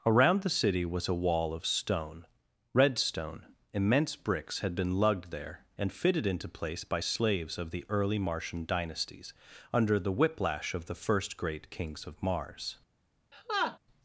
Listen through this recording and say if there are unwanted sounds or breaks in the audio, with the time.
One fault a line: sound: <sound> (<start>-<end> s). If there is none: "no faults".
sound: laugh (13.3-13.8 s)